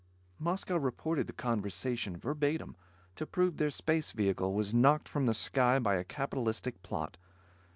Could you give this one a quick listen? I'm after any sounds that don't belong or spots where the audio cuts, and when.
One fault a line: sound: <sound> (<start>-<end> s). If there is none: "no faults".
no faults